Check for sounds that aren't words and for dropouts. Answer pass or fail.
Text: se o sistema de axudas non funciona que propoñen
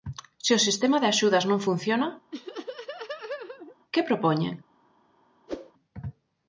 fail